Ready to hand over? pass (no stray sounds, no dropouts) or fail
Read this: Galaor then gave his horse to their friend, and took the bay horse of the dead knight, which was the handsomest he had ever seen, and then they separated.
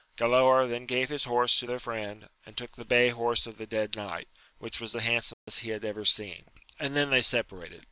fail